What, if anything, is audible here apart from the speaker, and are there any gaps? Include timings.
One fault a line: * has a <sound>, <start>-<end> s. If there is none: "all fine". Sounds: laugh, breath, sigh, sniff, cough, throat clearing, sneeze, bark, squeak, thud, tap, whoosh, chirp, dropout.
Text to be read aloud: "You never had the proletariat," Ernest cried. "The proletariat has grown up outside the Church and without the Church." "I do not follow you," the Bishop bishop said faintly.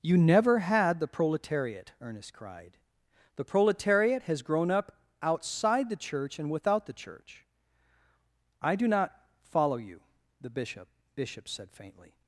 all fine